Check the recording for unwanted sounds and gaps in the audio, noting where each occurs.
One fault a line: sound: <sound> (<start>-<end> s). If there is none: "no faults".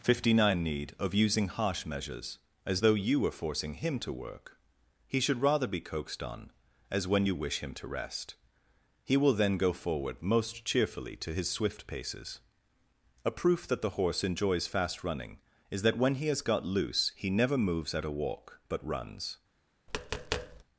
sound: tap (19.9-20.6 s)